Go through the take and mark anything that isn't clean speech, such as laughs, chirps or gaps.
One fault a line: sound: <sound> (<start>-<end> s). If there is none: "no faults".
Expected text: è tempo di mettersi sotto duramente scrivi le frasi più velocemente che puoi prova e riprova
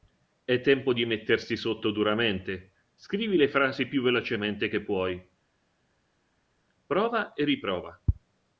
no faults